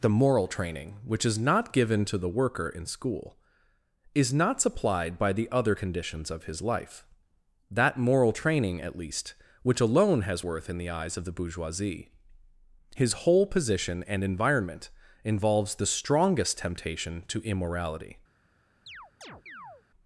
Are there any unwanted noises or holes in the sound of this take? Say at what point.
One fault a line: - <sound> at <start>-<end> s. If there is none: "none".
- chirp at 18.9-19.8 s